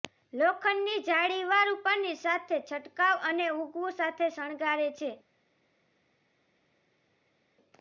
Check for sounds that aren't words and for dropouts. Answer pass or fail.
pass